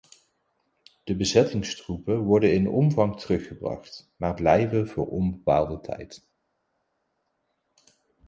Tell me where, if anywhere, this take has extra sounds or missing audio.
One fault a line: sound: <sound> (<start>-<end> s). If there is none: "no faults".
no faults